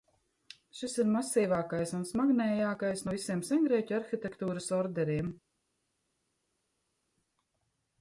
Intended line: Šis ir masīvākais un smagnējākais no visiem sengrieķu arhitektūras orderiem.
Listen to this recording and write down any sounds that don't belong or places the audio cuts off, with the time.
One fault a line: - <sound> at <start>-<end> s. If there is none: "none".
none